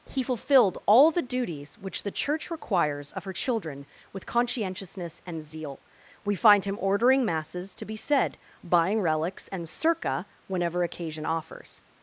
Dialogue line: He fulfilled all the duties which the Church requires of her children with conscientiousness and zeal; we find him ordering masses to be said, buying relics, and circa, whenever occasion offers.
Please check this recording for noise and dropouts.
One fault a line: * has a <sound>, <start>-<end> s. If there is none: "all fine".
all fine